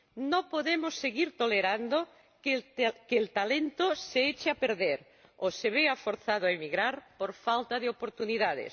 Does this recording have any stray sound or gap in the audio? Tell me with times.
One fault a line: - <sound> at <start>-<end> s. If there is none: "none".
none